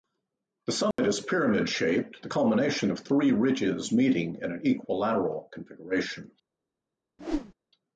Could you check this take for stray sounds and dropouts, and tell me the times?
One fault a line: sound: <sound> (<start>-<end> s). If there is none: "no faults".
sound: dropout (0.9-1.0 s)
sound: whoosh (7.2-7.5 s)